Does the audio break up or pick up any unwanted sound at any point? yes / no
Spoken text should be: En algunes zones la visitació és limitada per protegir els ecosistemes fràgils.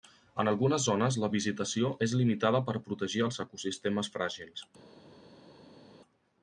no